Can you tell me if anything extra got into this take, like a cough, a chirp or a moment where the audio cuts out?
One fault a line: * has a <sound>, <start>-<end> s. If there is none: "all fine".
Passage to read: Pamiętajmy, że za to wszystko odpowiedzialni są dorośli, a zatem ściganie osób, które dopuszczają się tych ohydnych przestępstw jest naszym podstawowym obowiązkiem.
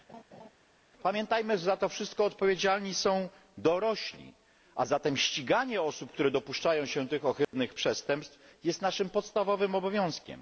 * has a laugh, 0.1-0.5 s
* has a dropout, 7.4-7.5 s